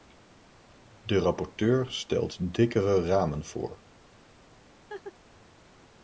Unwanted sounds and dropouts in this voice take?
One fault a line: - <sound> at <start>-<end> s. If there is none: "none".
- laugh at 4.9-5.1 s